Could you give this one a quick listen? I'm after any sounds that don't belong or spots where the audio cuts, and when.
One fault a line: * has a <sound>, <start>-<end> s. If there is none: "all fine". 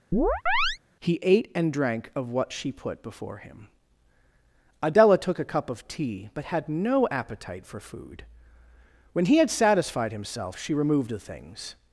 * has a chirp, 0.1-0.8 s